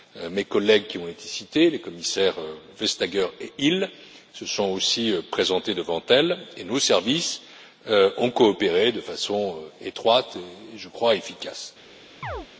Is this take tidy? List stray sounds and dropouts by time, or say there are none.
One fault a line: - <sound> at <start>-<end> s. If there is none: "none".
- chirp at 12.2-12.5 s